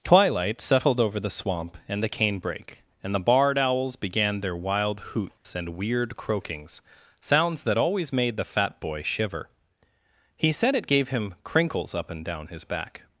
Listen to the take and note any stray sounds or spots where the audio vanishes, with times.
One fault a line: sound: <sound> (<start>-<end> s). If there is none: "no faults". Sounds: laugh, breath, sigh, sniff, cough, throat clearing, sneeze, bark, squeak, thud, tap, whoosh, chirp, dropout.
sound: dropout (5.4-5.5 s)